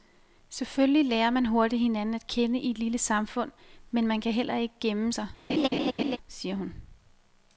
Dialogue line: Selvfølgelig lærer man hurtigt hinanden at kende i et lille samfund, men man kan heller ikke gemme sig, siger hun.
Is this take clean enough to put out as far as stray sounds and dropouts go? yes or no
no